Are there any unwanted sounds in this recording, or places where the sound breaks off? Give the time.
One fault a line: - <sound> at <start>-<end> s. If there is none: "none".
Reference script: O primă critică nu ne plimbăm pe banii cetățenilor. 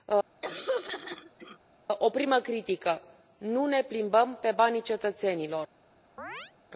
- throat clearing at 0.4-1.6 s
- chirp at 6.2-6.5 s